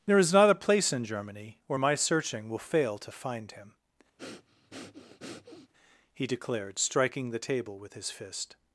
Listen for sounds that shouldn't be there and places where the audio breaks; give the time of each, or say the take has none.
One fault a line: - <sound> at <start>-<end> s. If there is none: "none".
- breath at 4.2-5.7 s